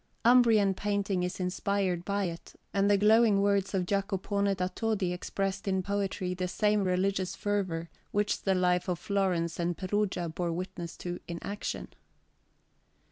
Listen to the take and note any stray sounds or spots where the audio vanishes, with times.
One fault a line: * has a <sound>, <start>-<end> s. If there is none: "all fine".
all fine